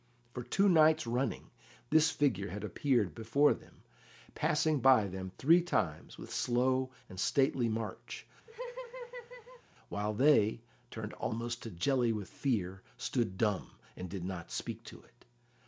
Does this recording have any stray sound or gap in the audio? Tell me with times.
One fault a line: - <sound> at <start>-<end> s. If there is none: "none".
- laugh at 8.5-9.6 s